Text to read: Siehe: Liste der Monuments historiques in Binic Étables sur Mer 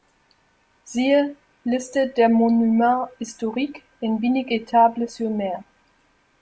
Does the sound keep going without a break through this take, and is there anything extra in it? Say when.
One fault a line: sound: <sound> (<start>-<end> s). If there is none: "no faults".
no faults